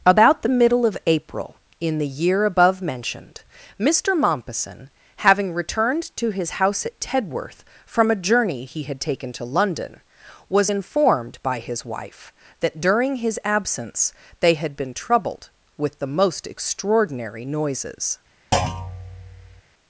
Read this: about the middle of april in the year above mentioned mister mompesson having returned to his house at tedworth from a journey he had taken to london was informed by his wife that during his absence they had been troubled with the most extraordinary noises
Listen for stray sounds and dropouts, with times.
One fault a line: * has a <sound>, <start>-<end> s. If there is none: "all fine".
* has a thud, 18.5-19.6 s